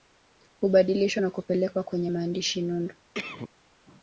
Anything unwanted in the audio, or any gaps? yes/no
yes